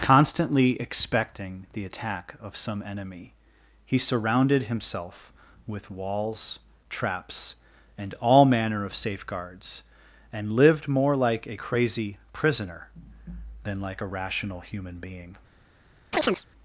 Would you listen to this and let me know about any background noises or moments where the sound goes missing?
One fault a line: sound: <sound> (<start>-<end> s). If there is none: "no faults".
sound: chirp (16.1-16.4 s)